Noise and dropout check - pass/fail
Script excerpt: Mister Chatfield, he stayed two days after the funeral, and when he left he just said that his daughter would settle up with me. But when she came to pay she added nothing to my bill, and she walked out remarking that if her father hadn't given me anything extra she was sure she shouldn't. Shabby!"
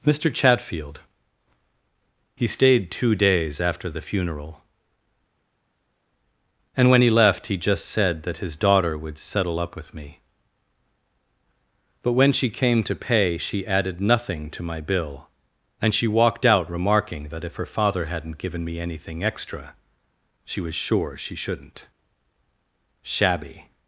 pass